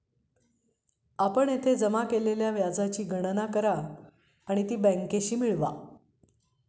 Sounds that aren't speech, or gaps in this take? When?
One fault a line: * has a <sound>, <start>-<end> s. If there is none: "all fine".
all fine